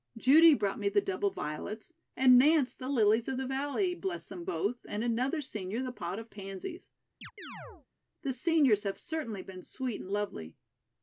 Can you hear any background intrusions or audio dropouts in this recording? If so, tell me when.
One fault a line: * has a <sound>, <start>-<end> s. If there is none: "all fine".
* has a chirp, 7.2-7.9 s